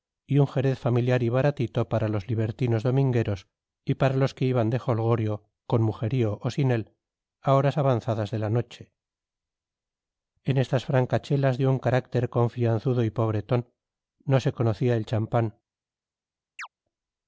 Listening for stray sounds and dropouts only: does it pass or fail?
fail